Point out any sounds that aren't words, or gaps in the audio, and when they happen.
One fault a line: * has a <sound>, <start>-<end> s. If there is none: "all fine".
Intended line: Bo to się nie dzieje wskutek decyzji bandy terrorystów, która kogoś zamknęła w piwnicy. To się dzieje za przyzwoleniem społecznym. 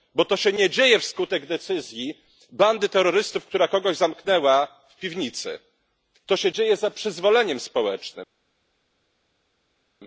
all fine